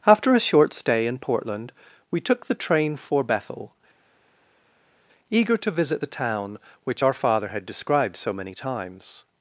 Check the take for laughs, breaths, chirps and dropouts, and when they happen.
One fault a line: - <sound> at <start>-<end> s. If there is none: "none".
none